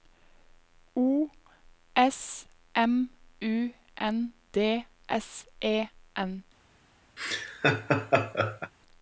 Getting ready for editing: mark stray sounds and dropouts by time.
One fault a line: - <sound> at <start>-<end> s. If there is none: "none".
- laugh at 7.2-8.7 s